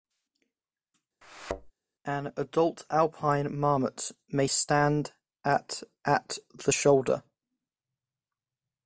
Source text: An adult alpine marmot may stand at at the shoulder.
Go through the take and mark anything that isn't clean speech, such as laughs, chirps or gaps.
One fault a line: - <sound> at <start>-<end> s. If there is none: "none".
- thud at 1.2-1.7 s